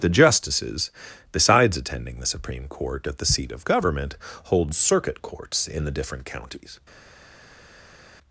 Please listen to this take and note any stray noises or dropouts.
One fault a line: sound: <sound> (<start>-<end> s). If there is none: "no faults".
no faults